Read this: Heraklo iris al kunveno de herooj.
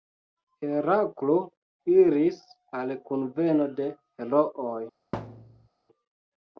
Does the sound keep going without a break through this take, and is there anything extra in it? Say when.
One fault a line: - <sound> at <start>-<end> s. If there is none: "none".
- thud at 5.1-5.7 s